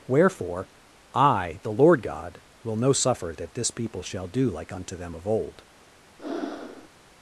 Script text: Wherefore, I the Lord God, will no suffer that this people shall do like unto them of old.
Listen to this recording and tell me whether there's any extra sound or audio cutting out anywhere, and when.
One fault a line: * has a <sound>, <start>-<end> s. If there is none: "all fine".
* has a breath, 6.2-6.9 s